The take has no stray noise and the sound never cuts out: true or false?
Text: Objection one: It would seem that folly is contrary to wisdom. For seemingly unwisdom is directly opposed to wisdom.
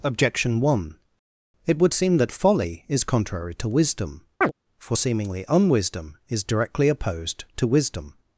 false